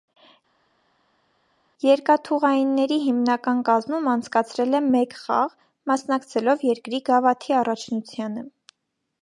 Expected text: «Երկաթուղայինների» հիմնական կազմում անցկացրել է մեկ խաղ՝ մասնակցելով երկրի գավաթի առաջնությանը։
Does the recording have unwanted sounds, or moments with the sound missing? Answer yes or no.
no